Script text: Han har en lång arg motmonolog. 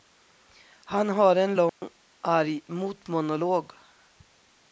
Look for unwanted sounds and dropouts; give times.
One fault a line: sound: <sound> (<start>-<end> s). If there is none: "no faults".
sound: dropout (1.7-1.8 s)